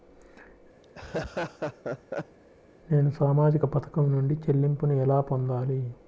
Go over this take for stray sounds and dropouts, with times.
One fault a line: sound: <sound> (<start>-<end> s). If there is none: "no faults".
sound: laugh (0.8-2.4 s)